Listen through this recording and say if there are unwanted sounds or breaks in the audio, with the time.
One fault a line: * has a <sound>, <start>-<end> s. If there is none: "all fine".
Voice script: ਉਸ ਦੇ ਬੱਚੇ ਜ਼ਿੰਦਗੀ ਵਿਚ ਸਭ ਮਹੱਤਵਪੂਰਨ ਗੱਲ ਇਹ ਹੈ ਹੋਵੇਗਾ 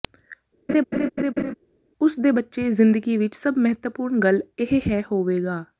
* has a laugh, 0.7-1.5 s